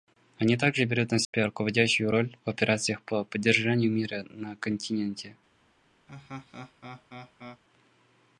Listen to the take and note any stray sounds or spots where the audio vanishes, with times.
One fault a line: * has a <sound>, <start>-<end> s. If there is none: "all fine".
* has a dropout, 1.2-1.3 s
* has a laugh, 6.1-7.6 s